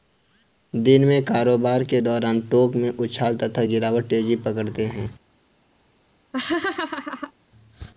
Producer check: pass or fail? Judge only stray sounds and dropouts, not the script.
fail